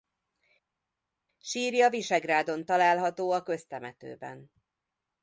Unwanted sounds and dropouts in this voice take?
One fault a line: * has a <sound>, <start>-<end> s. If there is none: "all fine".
all fine